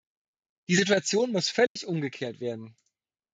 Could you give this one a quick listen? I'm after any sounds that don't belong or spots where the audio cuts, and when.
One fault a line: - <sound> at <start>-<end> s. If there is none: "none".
- dropout at 1.7-1.8 s